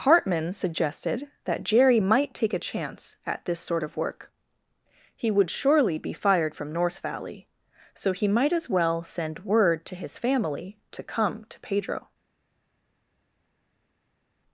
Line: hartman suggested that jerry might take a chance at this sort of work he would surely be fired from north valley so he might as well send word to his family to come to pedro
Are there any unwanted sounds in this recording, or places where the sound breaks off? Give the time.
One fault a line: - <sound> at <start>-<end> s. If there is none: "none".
none